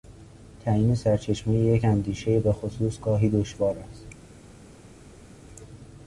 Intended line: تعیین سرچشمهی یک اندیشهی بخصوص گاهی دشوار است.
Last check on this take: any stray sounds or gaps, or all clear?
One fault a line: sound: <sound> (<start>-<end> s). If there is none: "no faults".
no faults